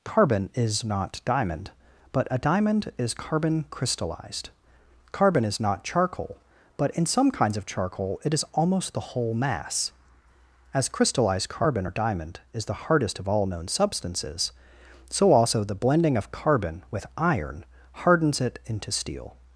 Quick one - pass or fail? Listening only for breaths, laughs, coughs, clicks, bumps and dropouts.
pass